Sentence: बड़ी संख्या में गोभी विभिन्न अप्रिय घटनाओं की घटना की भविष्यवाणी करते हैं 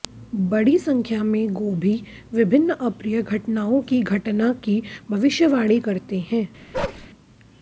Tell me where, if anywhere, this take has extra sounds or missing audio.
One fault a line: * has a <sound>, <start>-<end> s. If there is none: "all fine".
* has a bark, 6.7-7.1 s